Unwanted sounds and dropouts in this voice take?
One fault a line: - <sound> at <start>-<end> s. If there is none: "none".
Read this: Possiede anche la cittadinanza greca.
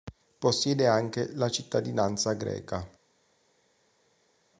none